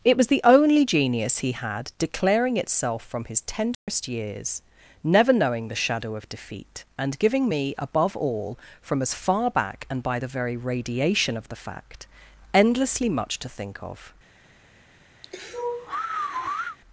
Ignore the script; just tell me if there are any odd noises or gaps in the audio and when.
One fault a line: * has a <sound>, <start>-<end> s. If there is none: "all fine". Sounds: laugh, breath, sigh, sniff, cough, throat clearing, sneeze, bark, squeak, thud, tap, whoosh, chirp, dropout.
* has a dropout, 3.7-3.9 s
* has a sigh, 15.2-16.8 s